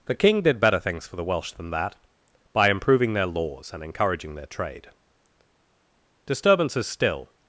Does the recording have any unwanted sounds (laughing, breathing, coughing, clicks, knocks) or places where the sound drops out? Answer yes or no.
no